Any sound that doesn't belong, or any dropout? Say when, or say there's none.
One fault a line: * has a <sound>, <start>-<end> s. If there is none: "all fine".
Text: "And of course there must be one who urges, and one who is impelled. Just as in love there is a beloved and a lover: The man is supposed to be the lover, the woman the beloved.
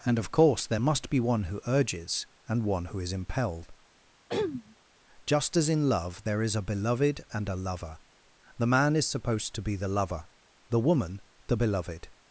* has a throat clearing, 4.3-4.8 s